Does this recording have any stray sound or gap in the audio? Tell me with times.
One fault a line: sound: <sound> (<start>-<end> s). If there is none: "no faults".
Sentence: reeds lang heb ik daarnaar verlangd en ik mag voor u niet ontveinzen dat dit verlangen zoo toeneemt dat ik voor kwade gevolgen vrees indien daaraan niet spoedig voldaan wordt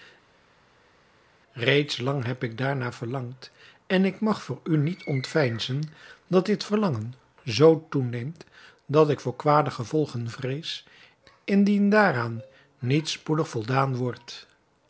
no faults